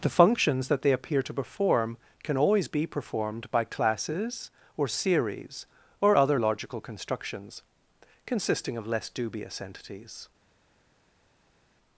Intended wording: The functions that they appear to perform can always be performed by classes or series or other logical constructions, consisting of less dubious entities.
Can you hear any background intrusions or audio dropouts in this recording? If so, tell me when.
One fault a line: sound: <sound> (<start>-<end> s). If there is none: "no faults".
no faults